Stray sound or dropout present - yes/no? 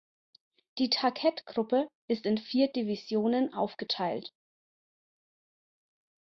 no